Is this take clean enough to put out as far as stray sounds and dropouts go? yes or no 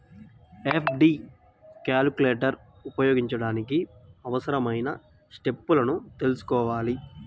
yes